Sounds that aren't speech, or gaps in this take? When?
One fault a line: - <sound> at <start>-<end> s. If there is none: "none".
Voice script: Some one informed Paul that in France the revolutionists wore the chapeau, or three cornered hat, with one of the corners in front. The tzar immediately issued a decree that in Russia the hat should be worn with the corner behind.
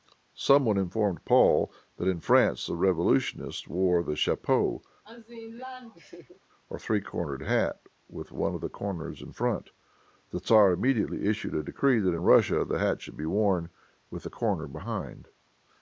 - laugh at 5.0-6.4 s